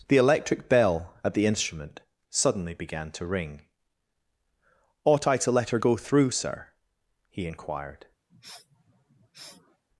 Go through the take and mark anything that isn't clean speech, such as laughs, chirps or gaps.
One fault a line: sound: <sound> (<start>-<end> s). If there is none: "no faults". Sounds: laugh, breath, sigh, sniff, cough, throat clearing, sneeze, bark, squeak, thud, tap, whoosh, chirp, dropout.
sound: sniff (8.3-9.8 s)